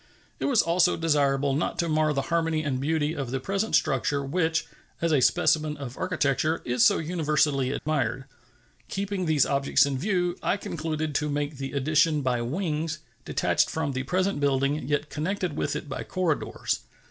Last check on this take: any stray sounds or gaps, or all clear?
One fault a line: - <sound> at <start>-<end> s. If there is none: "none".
- dropout at 7.8-7.9 s